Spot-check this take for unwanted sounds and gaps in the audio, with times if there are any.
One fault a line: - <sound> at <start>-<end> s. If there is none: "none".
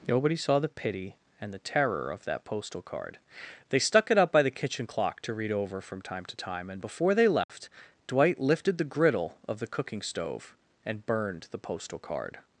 - dropout at 7.4-7.5 s